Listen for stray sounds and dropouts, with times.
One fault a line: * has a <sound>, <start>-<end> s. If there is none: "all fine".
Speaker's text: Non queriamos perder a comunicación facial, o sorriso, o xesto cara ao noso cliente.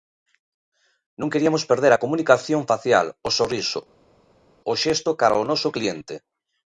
all fine